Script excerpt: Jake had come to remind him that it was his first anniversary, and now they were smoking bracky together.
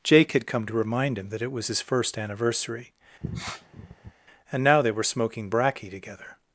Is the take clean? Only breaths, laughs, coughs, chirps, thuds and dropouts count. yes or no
no